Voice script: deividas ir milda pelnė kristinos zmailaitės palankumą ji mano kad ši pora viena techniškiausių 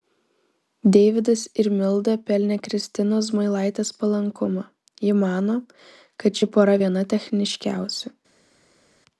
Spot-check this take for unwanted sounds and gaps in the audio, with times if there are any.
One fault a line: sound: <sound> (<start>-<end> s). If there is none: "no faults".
no faults